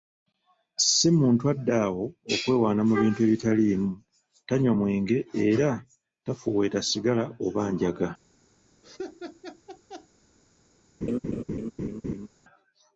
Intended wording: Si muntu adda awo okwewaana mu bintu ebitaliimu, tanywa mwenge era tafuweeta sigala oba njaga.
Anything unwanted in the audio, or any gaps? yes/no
yes